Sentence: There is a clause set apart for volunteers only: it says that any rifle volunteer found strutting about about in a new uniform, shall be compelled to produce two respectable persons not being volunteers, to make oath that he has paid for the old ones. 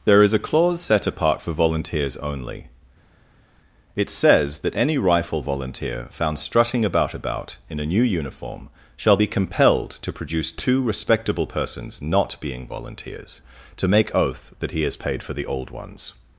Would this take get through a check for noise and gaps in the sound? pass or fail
pass